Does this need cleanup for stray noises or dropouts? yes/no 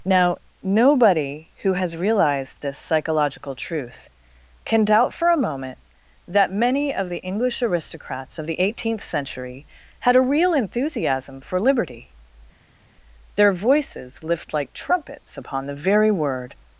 no